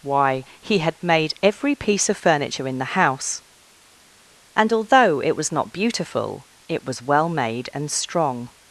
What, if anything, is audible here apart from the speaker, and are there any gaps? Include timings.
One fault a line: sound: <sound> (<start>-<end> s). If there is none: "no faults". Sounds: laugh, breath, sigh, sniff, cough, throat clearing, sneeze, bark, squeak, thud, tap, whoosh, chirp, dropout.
no faults